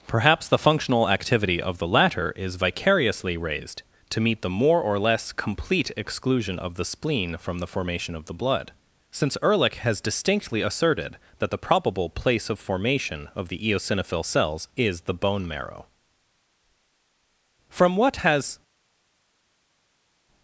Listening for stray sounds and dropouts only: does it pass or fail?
pass